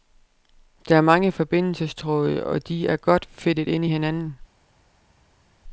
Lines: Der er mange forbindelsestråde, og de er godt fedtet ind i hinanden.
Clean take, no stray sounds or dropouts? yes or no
yes